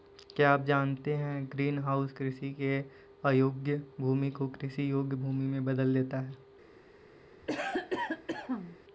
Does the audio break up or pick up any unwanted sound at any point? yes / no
yes